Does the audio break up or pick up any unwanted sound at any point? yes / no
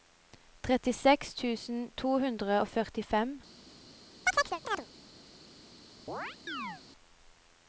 yes